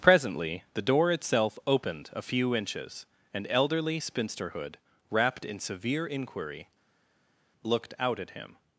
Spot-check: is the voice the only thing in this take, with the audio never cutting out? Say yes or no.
yes